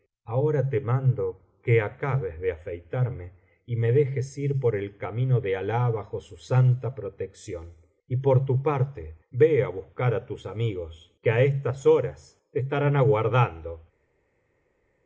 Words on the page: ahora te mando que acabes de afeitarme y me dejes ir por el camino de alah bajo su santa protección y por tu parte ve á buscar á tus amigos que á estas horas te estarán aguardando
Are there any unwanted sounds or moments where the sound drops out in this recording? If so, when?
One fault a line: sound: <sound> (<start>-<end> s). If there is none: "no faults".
no faults